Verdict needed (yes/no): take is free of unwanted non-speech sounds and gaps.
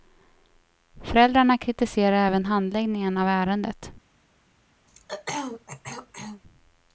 no